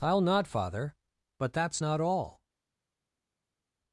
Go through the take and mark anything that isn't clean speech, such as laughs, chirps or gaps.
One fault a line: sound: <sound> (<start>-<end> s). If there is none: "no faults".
no faults